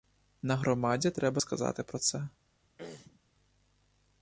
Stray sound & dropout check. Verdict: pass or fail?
fail